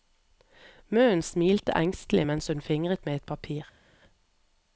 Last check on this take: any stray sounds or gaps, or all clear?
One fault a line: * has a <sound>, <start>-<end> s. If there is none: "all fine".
all fine